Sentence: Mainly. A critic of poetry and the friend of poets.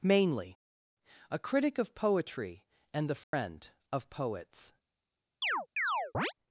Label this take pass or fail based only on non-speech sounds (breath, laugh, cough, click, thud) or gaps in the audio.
fail